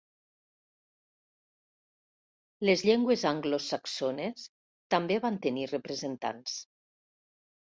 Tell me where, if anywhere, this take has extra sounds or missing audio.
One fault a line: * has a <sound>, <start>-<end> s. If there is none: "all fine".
all fine